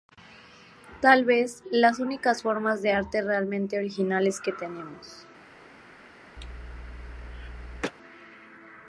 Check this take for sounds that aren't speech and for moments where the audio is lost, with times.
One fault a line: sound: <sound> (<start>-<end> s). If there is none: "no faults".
sound: cough (6.4-7.9 s)